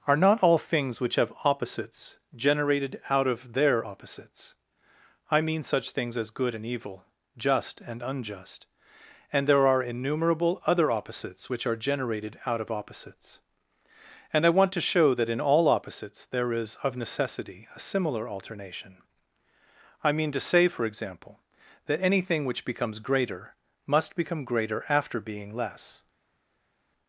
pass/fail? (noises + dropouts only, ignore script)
pass